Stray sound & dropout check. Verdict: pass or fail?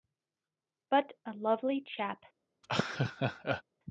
fail